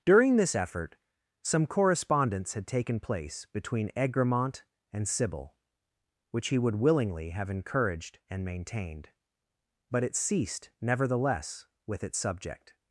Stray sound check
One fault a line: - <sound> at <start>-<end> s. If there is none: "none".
none